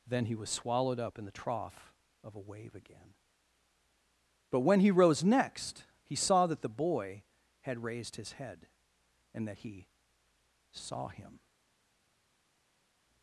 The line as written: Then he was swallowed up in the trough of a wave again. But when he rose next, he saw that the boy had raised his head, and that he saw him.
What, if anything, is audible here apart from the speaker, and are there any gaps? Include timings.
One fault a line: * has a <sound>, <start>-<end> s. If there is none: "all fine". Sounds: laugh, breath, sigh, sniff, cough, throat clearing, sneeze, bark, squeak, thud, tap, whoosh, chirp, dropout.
all fine